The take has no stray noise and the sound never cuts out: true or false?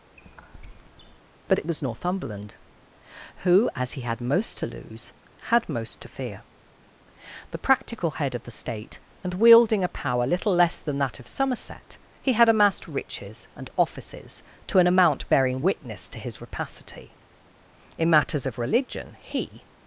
false